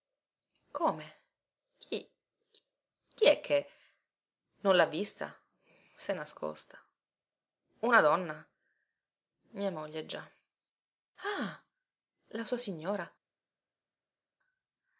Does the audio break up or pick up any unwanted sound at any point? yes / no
no